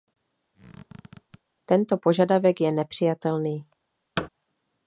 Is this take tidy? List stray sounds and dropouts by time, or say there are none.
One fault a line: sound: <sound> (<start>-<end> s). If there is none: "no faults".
sound: squeak (0.5-1.4 s)
sound: thud (4.2-4.3 s)